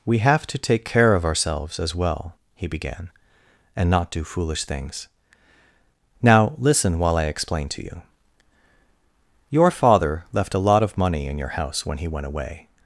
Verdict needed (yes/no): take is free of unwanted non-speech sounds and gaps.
yes